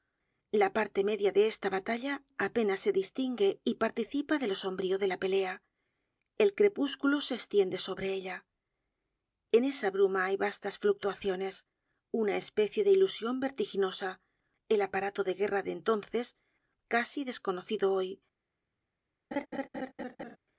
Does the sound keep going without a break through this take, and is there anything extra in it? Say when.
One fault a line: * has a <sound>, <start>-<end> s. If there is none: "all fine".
* has a laugh, 19.3-20.4 s